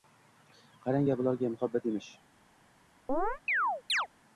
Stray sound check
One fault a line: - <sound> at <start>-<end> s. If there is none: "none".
- chirp at 3.1-4.1 s